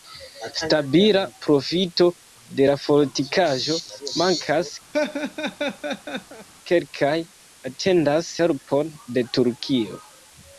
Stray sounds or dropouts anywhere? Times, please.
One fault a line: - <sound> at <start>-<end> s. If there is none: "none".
- laugh at 4.9-6.5 s